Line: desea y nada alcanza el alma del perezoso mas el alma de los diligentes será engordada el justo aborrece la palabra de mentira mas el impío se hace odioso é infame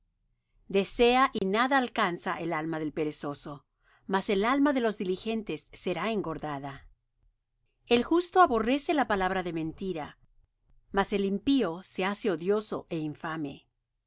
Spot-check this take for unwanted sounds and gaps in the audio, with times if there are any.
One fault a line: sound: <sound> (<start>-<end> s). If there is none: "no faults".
sound: dropout (1.4-1.4 s)